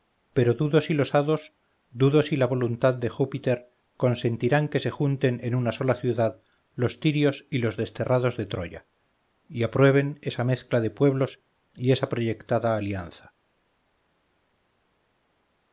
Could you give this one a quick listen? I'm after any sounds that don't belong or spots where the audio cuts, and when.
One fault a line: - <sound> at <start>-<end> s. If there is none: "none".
none